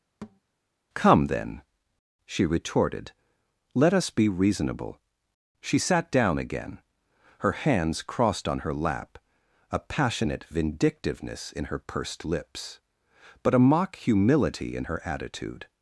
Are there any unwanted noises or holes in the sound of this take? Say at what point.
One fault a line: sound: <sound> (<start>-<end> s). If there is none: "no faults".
sound: thud (0.2-0.4 s)